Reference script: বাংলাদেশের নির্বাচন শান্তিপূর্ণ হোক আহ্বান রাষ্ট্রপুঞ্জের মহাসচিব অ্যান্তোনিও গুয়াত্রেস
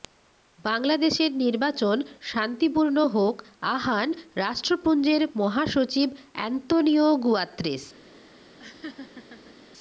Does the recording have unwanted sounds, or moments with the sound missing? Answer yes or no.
yes